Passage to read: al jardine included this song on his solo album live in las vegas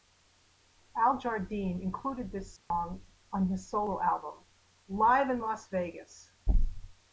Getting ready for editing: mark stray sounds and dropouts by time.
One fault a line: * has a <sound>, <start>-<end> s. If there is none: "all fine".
* has a dropout, 2.6-2.7 s